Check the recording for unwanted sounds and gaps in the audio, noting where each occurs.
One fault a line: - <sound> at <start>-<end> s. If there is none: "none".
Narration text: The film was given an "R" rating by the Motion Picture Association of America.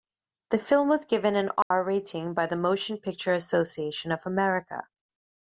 - dropout at 1.6-1.7 s